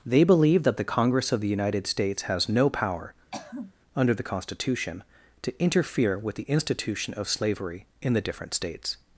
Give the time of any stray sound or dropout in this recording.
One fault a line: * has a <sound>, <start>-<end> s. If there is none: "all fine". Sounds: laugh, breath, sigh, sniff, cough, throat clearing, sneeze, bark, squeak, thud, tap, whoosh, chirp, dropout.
* has a throat clearing, 3.3-3.7 s